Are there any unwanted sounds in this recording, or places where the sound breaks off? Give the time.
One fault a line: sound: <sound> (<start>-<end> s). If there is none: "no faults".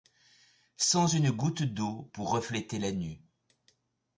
no faults